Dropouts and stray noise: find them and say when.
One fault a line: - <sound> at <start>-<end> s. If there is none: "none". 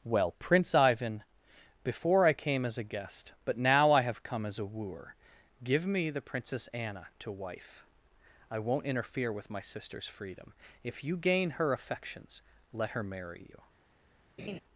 - laugh at 14.4-14.6 s